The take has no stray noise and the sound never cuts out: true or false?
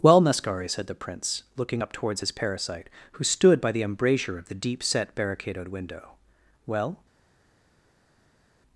true